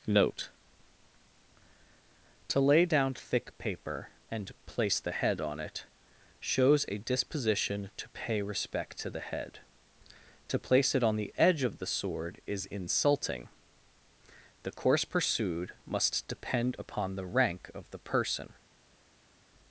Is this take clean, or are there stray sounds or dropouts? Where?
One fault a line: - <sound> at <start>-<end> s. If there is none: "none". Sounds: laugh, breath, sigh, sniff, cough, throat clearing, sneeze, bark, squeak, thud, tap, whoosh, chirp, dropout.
none